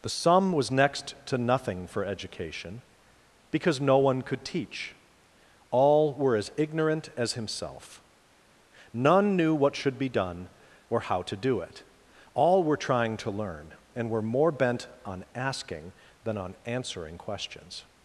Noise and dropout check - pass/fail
pass